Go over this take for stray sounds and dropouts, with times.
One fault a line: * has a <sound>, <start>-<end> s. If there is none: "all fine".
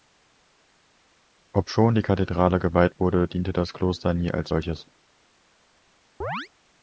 * has a chirp, 6.2-6.5 s